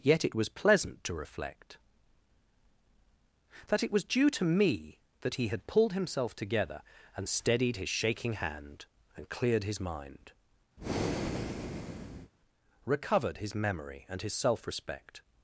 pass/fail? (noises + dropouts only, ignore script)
fail